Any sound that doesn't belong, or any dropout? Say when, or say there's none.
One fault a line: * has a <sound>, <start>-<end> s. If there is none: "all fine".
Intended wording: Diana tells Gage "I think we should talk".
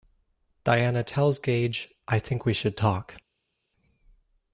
all fine